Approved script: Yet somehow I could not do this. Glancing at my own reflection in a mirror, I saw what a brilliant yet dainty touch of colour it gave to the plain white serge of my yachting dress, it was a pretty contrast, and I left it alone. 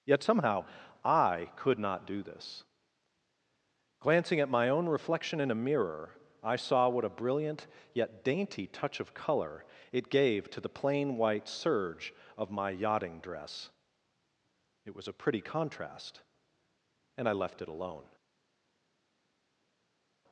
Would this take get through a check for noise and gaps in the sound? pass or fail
pass